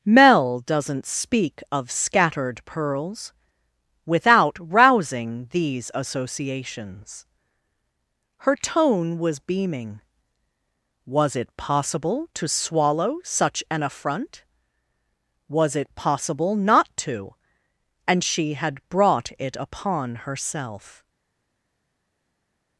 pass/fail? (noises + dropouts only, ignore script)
pass